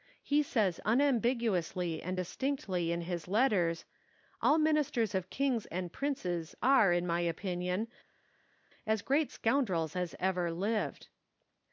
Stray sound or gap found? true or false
false